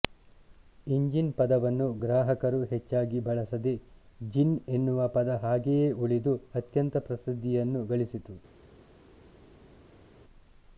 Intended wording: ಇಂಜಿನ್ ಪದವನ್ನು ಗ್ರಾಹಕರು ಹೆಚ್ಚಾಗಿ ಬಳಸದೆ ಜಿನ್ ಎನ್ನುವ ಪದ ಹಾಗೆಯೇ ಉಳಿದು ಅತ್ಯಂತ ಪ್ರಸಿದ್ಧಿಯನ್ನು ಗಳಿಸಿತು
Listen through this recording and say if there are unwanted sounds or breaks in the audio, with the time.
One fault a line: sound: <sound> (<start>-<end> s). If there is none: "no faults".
no faults